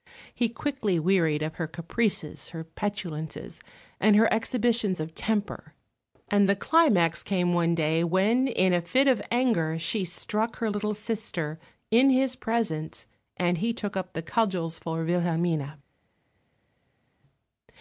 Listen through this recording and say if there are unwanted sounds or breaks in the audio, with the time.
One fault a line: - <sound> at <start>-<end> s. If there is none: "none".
none